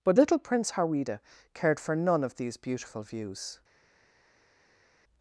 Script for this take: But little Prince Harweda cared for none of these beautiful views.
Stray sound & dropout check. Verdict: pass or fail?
pass